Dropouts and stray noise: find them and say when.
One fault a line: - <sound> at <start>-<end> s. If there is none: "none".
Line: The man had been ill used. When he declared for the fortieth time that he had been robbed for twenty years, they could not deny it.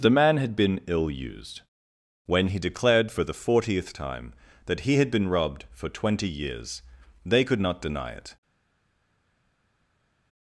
none